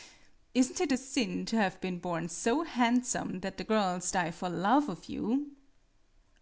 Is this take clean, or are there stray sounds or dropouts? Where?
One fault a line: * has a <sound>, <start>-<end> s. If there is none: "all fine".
all fine